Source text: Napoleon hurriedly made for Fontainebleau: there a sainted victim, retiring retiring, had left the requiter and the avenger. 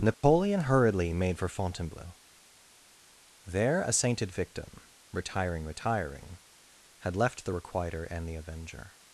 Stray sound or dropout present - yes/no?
yes